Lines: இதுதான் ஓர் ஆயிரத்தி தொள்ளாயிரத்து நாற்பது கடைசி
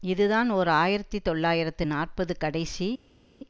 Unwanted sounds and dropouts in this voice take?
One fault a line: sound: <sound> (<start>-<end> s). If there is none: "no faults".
no faults